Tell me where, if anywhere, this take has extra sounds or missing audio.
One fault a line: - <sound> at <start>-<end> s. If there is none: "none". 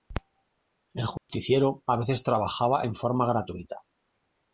- dropout at 1.2-1.3 s